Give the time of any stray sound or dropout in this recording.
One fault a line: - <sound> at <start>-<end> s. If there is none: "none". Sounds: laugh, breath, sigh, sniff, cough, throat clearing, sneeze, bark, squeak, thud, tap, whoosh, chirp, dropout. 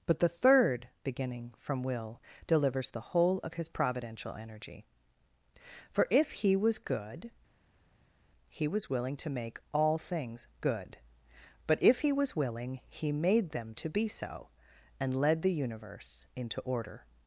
none